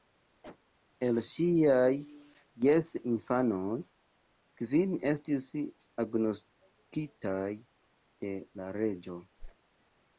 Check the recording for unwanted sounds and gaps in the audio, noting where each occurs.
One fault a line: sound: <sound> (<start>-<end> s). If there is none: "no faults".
sound: cough (0.4-0.6 s)
sound: whoosh (9.4-9.6 s)